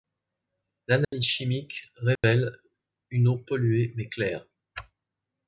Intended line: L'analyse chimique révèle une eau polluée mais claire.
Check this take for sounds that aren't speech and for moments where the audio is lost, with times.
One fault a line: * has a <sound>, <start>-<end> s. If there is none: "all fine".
* has a dropout, 1.0-1.1 s
* has a dropout, 2.2-2.2 s